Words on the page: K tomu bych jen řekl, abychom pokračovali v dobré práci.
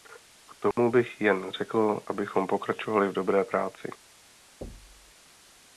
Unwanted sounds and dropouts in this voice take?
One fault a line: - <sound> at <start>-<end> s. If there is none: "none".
- dropout at 0.7-0.8 s
- thud at 4.6-5.1 s